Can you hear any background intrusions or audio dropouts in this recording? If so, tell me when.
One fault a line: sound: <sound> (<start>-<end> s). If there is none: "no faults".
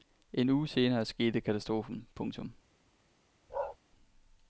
sound: bark (3.5-3.8 s)